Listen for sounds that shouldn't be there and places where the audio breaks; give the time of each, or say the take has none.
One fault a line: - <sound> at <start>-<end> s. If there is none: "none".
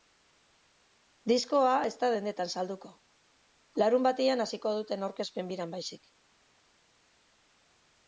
none